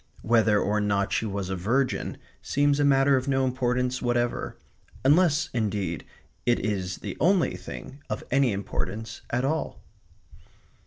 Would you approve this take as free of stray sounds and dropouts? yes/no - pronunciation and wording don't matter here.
yes